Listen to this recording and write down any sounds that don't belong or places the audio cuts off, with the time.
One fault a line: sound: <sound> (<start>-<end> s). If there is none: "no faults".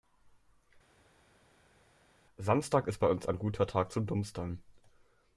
no faults